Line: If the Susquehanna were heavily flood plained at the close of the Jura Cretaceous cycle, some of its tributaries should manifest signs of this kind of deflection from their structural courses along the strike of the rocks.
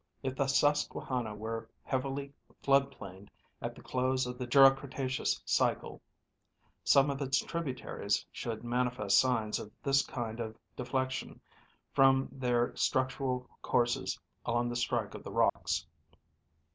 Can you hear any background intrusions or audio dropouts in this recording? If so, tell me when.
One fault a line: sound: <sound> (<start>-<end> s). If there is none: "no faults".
sound: dropout (15.5-15.6 s)